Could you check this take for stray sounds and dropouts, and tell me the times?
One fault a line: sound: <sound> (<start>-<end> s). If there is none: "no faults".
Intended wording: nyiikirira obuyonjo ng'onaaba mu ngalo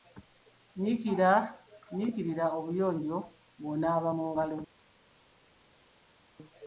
no faults